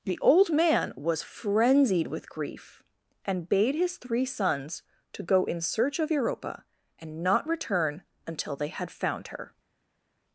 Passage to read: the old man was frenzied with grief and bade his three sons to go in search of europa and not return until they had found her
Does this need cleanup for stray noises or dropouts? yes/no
no